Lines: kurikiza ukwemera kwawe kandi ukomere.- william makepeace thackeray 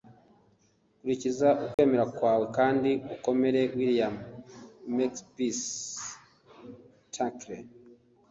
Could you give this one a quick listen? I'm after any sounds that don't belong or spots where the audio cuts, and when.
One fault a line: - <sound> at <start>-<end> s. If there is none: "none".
- dropout at 1.7-1.8 s